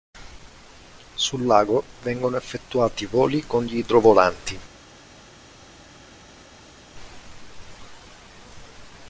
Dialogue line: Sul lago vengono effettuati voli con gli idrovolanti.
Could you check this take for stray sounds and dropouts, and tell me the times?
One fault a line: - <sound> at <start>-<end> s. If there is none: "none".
none